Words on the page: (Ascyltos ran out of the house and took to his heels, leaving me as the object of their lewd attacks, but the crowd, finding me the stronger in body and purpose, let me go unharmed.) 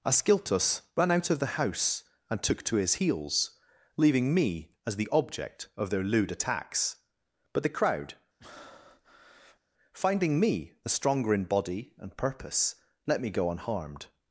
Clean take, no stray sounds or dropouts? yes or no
no